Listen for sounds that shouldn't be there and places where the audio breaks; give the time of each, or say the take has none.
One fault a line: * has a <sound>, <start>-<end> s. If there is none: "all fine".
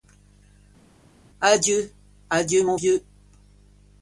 all fine